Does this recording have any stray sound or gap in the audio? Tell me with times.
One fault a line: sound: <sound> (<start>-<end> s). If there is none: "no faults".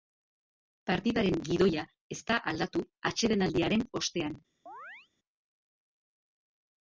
sound: chirp (4.7-5.1 s)